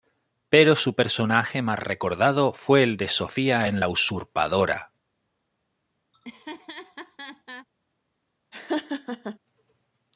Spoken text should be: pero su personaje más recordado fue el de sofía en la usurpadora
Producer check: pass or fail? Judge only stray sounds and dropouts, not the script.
fail